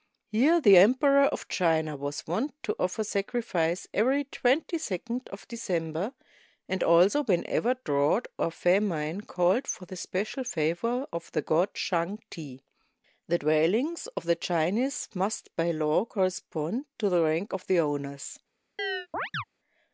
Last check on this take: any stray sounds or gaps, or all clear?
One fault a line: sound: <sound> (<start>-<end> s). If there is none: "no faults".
sound: chirp (18.8-19.4 s)